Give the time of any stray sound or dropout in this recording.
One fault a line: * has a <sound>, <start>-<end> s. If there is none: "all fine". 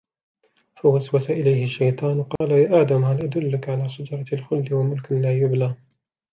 * has a dropout, 2.4-2.4 s